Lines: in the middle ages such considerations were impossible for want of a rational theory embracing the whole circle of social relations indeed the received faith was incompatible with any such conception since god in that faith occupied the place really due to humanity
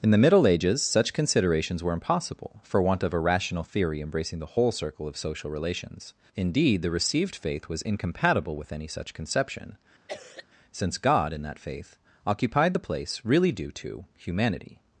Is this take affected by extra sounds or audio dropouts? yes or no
yes